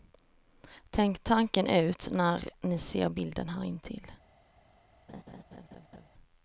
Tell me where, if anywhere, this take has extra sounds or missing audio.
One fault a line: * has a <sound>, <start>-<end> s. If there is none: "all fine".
* has a laugh, 5.1-6.1 s